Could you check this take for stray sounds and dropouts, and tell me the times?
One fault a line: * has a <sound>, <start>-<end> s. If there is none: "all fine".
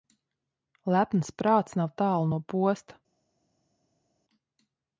all fine